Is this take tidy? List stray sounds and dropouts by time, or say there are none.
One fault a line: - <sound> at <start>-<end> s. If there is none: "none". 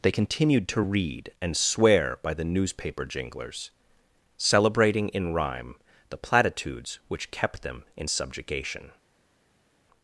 none